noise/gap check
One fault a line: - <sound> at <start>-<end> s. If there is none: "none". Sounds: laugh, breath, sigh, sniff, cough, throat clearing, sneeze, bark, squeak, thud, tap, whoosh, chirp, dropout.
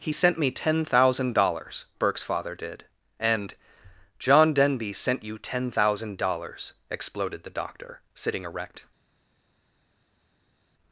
none